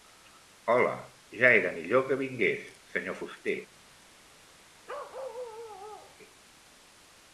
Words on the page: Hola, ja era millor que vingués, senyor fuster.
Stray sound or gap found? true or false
true